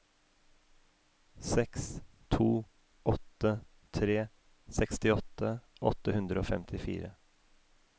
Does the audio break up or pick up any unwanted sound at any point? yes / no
no